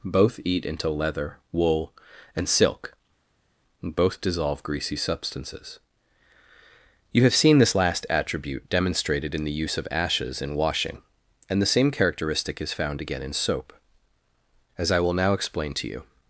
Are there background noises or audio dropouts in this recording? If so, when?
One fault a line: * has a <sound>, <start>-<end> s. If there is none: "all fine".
all fine